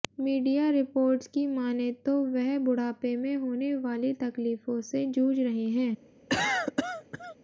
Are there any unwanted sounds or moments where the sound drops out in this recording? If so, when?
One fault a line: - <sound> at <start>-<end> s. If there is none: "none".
- cough at 6.3-7.4 s